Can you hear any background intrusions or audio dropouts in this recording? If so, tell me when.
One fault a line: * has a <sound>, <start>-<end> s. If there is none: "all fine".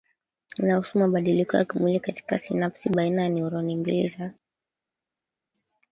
all fine